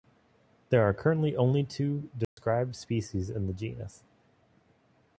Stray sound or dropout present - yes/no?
yes